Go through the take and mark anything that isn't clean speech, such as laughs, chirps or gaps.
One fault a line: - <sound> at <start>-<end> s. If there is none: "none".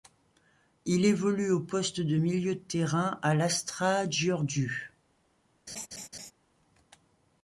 - laugh at 5.7-6.3 s